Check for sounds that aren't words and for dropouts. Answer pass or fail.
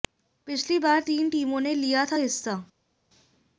pass